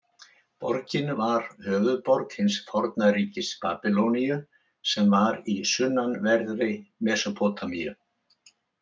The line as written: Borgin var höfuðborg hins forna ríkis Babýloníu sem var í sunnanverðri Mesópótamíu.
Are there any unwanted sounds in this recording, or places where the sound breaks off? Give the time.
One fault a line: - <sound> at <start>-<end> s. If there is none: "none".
none